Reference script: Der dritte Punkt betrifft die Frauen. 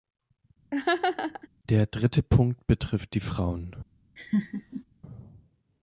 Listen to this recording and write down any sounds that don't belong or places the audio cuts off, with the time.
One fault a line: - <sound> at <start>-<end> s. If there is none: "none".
- laugh at 0.7-1.5 s
- laugh at 4.2-4.8 s